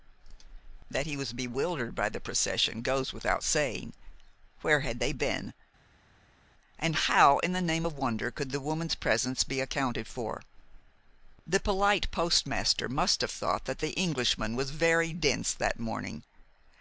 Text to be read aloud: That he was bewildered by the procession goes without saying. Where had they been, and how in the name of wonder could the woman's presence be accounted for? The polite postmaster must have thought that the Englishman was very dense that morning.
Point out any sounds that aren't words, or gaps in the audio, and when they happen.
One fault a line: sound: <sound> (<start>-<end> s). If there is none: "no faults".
no faults